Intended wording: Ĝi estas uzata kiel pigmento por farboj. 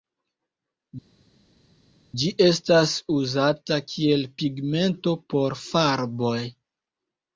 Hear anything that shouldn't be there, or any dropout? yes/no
no